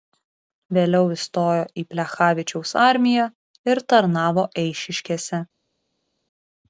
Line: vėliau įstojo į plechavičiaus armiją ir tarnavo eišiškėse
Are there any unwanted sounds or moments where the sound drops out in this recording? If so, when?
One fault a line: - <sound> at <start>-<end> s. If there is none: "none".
none